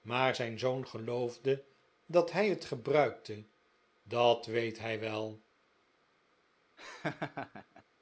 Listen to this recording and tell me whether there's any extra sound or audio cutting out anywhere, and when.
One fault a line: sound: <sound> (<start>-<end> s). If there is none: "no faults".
sound: laugh (6.8-7.8 s)